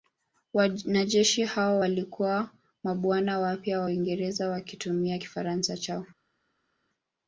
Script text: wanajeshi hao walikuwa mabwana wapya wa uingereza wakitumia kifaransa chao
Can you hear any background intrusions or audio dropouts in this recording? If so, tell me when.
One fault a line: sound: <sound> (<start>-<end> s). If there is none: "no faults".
no faults